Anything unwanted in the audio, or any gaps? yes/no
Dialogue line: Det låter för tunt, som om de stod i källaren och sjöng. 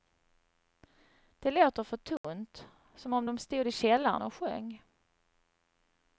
yes